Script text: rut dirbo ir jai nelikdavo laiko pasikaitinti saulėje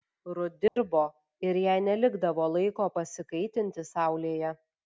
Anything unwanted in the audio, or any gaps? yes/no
yes